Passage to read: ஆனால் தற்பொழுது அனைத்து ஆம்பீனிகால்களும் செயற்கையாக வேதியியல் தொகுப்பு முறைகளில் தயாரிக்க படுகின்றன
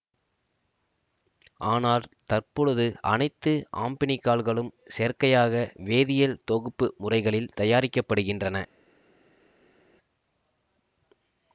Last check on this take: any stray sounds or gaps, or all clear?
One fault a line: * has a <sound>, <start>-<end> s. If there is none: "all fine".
all fine